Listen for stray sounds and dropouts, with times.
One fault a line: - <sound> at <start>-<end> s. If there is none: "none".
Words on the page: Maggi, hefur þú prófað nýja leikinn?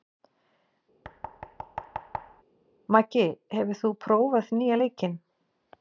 - thud at 1.0-2.4 s